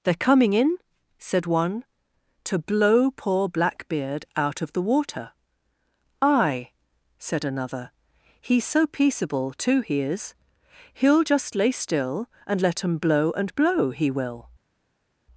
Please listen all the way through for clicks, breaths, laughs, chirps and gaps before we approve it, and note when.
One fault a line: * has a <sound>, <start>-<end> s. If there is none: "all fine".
all fine